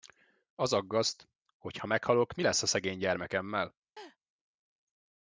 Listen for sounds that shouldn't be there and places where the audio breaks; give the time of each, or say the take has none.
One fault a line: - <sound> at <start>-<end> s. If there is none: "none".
- laugh at 4.0-4.2 s